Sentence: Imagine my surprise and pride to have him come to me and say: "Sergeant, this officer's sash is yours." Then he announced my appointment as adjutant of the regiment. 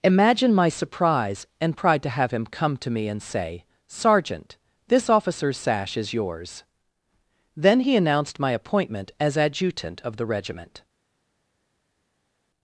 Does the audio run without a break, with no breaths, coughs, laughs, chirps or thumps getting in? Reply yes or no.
yes